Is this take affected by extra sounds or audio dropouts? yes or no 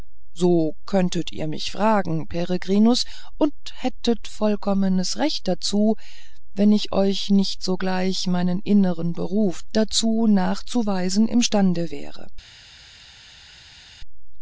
no